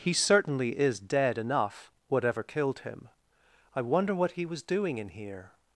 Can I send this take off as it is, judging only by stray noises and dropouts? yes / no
yes